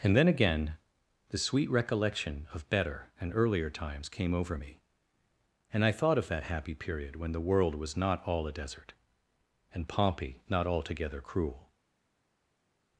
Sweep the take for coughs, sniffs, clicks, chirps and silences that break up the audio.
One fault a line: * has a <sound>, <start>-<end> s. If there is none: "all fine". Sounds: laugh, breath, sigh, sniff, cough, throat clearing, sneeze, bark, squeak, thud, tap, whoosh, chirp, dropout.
all fine